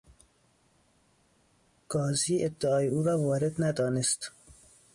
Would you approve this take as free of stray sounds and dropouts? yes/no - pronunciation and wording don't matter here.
yes